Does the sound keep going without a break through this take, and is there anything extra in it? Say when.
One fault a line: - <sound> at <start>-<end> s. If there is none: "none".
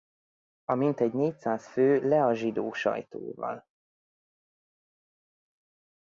none